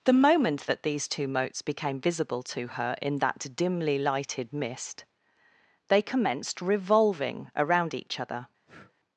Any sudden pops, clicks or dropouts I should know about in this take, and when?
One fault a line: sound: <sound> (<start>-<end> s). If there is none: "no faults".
sound: breath (8.7-8.9 s)